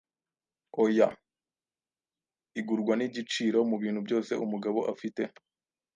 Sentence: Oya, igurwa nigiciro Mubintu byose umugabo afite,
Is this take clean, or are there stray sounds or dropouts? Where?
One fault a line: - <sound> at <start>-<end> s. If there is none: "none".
none